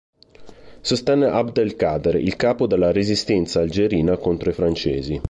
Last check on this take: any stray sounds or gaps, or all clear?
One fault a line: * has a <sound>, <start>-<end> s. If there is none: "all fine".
all fine